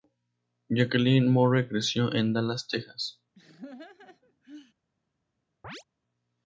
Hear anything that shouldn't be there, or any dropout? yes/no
yes